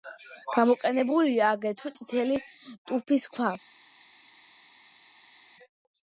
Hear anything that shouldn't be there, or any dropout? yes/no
no